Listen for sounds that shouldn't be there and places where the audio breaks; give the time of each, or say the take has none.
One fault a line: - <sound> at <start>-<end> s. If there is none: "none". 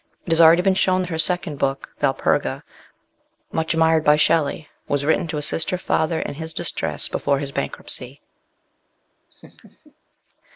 - laugh at 9.3-9.9 s